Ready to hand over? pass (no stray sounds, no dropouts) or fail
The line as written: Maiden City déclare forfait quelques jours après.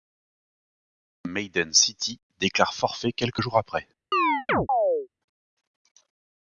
fail